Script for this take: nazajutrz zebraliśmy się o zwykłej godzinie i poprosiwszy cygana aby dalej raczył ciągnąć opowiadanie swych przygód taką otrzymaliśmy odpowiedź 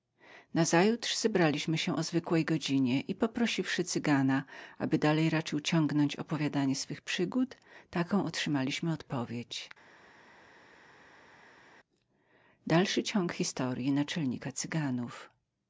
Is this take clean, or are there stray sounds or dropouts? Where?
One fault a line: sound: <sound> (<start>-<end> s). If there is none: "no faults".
no faults